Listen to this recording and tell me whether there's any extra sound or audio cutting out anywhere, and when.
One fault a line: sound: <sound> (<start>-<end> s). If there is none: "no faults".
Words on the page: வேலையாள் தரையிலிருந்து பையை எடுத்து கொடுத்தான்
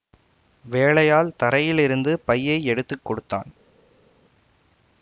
no faults